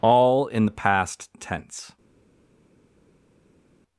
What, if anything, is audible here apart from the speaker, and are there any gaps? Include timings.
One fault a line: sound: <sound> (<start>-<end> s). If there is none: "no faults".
no faults